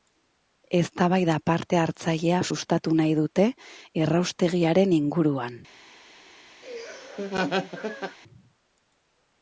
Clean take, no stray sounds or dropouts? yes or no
no